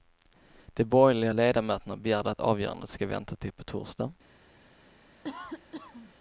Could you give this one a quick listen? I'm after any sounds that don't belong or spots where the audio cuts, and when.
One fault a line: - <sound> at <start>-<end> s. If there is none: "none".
- cough at 5.2-6.1 s